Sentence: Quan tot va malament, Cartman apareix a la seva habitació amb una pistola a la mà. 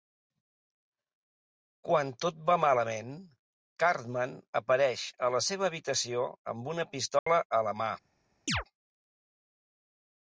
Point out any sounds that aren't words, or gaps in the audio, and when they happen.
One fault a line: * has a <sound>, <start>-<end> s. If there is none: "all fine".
* has a dropout, 7.2-7.3 s
* has a chirp, 8.5-8.6 s